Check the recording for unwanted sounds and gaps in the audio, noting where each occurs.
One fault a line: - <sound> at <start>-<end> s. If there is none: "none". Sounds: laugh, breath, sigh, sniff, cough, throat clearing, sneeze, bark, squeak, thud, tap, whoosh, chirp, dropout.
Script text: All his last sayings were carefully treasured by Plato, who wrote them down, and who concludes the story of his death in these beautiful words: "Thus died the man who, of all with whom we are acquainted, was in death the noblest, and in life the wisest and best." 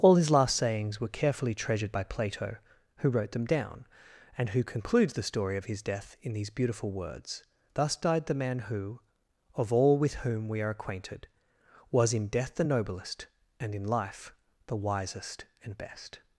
none